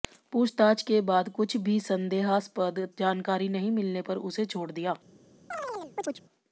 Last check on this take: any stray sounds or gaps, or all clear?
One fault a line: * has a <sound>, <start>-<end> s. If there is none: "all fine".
* has a chirp, 5.5-6.2 s